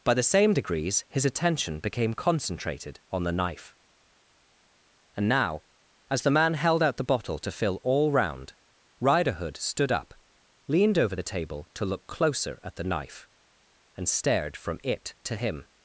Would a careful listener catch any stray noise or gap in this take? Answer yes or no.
no